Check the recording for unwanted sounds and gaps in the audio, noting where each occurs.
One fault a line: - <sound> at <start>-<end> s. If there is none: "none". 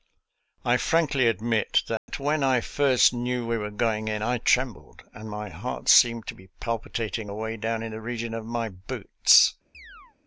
- dropout at 2.0-2.1 s
- chirp at 9.7-10.2 s